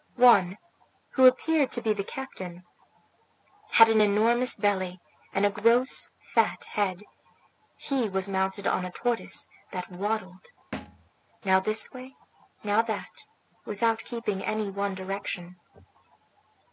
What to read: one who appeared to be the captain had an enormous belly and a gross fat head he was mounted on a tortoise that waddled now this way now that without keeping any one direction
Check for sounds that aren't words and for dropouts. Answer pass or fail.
fail